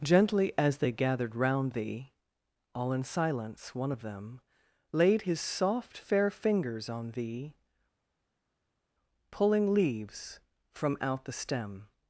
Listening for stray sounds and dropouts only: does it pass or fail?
pass